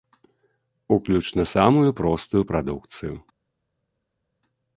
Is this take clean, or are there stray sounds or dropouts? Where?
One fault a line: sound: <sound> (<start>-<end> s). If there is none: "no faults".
no faults